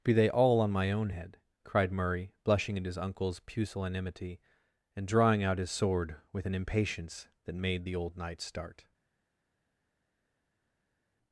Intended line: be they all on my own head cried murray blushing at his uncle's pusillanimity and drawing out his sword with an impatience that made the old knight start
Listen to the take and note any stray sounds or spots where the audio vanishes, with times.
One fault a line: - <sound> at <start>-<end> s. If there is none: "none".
none